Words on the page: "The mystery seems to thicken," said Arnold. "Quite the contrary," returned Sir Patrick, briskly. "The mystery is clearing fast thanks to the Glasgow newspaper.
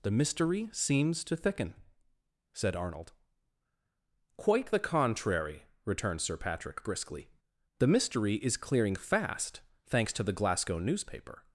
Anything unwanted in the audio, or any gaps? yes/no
no